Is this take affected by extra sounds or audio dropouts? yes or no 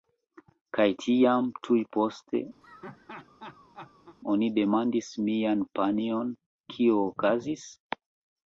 yes